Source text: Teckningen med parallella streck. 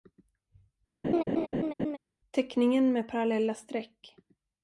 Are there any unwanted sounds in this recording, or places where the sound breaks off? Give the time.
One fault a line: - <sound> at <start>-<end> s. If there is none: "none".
- laugh at 1.0-2.0 s